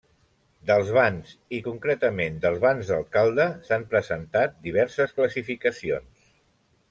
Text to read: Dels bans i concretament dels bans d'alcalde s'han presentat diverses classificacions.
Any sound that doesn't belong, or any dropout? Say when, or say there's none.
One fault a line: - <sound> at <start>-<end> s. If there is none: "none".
none